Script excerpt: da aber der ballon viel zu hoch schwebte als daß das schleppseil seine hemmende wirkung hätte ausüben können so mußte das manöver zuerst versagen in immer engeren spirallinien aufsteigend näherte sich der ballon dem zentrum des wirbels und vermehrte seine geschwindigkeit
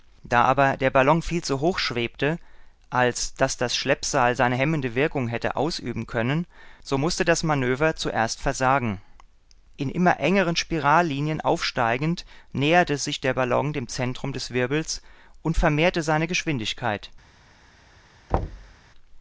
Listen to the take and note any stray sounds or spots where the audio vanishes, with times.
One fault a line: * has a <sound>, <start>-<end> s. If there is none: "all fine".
* has a thud, 18.3-18.7 s